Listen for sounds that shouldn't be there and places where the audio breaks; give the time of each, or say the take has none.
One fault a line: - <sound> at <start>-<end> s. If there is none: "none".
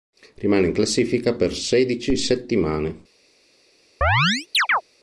- chirp at 4.0-4.8 s